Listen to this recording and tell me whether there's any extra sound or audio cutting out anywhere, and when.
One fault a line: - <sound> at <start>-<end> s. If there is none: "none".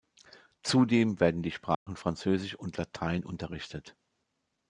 - dropout at 1.7-1.9 s